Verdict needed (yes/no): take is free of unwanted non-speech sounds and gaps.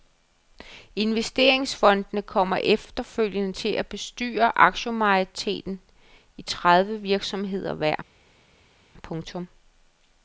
yes